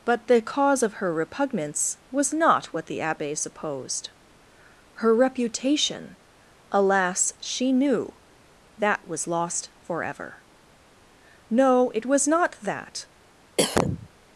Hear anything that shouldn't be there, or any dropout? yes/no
yes